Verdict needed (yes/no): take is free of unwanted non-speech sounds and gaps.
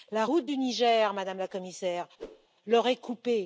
no